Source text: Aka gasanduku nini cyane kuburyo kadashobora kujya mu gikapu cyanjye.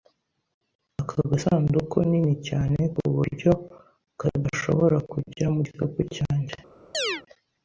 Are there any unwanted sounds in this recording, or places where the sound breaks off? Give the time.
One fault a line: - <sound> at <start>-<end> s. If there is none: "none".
- chirp at 6.9-7.2 s